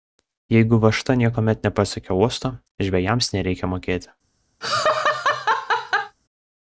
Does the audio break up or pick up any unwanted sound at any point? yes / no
yes